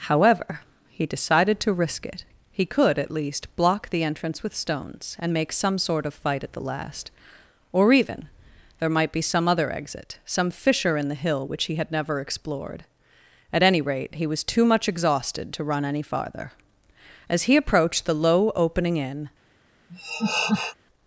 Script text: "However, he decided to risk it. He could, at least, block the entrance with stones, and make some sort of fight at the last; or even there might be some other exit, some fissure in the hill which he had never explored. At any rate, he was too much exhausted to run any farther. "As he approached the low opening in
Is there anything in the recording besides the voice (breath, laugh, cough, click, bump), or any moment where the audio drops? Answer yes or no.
yes